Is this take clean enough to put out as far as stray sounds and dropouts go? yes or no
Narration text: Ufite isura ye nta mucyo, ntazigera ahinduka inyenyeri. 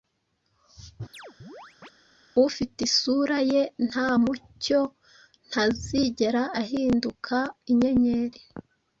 no